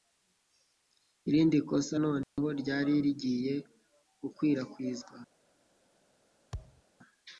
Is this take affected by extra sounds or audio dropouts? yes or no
yes